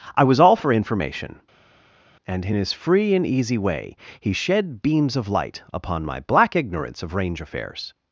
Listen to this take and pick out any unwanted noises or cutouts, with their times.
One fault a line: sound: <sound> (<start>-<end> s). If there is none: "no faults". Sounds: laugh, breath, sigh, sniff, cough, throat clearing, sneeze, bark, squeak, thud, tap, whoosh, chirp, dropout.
no faults